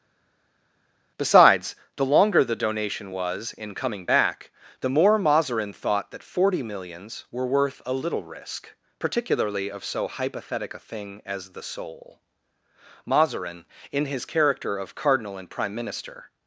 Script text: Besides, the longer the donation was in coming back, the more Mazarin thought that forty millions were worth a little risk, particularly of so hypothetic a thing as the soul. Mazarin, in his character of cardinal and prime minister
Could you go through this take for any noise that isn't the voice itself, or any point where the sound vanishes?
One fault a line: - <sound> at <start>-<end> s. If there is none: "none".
none